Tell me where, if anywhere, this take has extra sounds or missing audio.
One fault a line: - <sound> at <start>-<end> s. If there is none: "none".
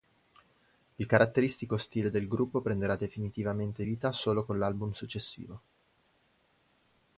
none